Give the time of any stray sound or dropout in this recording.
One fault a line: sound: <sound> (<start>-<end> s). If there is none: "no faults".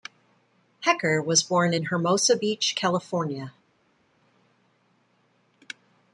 no faults